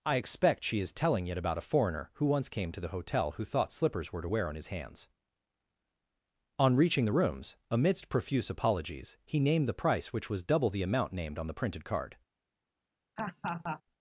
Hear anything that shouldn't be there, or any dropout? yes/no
yes